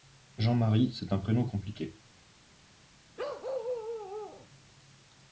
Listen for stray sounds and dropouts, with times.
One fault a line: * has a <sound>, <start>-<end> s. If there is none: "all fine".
* has a bark, 3.2-4.5 s